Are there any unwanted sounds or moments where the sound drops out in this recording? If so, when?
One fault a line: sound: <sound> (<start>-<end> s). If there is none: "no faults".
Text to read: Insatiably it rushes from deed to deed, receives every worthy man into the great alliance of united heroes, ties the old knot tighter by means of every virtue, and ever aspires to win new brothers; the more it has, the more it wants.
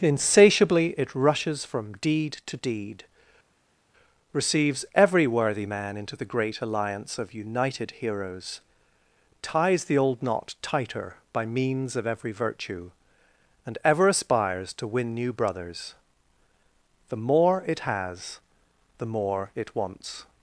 no faults